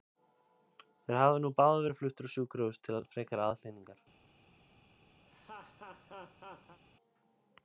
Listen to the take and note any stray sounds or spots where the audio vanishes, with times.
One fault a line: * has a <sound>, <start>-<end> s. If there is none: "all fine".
* has a laugh, 5.3-6.8 s